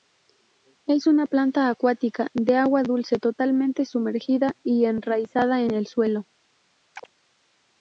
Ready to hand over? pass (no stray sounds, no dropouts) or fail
fail